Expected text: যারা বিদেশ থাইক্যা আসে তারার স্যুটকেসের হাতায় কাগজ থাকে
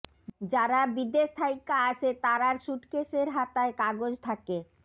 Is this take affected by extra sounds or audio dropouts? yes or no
no